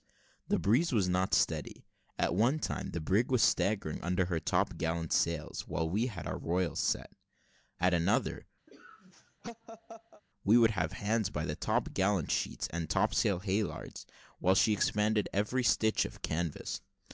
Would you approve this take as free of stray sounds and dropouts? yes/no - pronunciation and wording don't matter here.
no